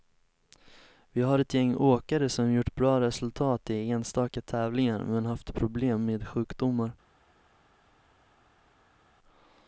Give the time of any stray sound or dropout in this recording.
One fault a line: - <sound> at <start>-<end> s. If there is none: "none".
none